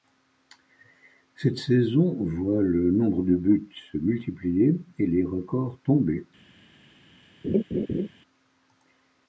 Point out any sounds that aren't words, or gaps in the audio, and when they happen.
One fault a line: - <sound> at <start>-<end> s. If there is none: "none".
- laugh at 7.4-8.1 s